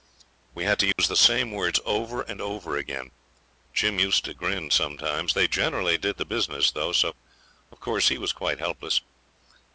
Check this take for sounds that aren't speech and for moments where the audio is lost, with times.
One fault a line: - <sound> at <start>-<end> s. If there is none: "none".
- dropout at 0.9-1.0 s